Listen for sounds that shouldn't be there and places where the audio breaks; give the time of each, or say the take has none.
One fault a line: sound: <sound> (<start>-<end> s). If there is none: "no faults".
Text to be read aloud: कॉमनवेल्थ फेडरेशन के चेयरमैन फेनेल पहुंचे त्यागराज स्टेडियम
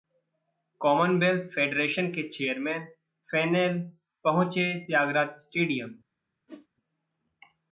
sound: whoosh (6.5-6.7 s)